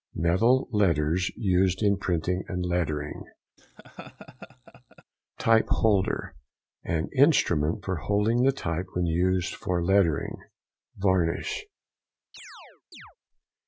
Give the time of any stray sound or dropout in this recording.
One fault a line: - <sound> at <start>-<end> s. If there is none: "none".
- laugh at 3.6-5.0 s
- chirp at 12.3-13.2 s